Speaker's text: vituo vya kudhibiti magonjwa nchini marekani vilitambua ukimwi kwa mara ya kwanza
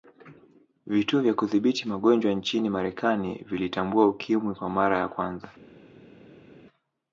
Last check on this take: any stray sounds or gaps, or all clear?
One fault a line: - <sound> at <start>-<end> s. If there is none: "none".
none